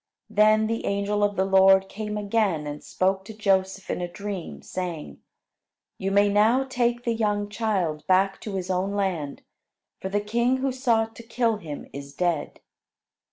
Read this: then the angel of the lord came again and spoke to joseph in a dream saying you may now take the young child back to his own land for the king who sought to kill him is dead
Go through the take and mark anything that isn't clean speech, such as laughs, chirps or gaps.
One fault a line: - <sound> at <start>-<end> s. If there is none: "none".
none